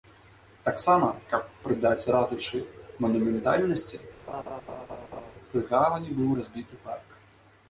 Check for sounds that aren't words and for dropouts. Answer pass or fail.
fail